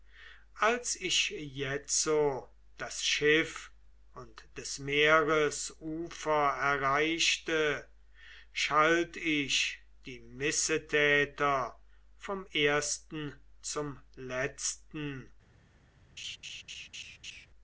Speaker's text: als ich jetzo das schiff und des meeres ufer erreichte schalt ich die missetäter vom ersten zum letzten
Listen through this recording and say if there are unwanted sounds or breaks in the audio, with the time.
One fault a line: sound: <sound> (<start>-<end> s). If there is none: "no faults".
sound: laugh (16.2-17.5 s)